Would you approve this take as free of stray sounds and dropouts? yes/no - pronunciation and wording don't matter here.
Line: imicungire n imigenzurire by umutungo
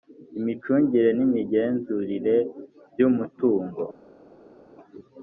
yes